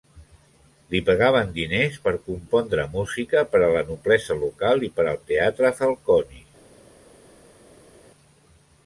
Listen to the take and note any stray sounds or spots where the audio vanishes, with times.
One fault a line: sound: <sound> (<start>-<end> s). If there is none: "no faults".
no faults